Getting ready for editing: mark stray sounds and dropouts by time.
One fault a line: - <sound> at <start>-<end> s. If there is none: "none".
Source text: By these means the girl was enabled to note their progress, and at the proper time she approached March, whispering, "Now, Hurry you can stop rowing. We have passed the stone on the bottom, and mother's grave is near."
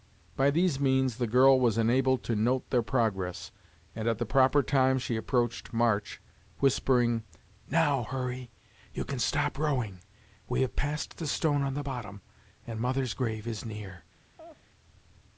- laugh at 14.4-14.7 s